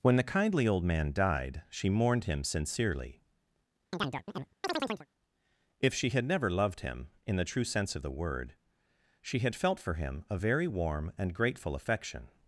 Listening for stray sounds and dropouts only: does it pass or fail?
fail